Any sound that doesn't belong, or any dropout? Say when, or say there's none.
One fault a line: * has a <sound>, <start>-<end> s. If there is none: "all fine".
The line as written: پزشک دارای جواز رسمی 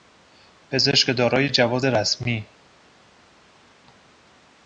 all fine